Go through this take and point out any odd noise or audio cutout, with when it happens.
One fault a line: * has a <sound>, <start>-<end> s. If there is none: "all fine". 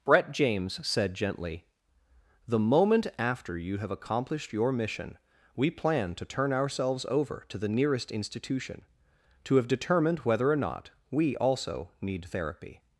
all fine